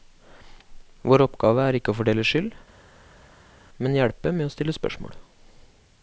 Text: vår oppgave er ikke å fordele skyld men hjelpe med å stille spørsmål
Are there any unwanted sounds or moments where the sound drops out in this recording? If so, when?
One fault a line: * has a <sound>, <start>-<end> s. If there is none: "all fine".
all fine